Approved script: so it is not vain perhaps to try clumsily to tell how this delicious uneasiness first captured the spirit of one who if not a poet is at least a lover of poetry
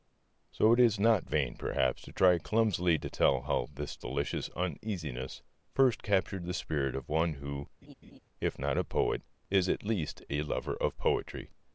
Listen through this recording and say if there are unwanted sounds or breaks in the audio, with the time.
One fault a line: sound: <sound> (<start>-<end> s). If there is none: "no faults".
sound: laugh (7.8-8.2 s)